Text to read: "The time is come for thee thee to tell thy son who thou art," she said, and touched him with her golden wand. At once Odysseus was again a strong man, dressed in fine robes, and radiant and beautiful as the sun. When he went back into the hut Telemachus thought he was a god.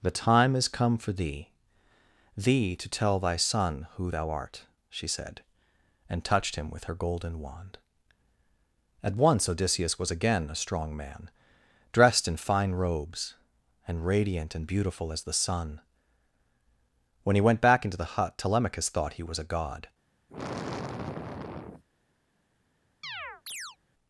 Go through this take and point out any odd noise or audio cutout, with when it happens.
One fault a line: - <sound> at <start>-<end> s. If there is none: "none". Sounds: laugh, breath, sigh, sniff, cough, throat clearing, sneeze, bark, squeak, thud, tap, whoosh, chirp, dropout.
- sigh at 20.3-21.8 s
- chirp at 23.0-23.8 s